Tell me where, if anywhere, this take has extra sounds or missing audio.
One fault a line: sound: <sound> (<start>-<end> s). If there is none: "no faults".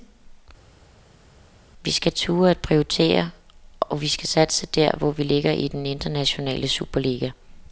no faults